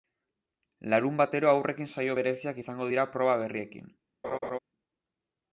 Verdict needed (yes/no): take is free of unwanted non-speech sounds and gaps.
no